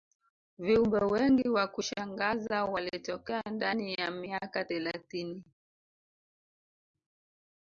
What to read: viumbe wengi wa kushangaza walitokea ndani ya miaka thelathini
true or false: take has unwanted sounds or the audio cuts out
false